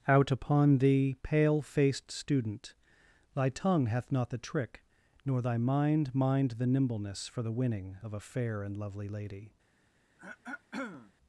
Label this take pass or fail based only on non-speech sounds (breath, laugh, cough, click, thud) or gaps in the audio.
fail